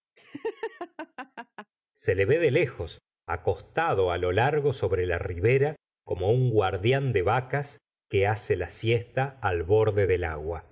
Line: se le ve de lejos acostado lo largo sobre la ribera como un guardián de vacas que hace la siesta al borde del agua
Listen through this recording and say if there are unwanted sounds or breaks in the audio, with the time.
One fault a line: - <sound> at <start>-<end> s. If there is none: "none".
- laugh at 0.2-1.7 s